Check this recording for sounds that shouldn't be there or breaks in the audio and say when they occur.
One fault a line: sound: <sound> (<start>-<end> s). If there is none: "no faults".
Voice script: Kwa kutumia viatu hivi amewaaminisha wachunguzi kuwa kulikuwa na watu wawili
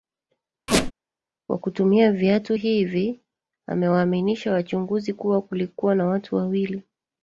sound: squeak (0.7-0.9 s)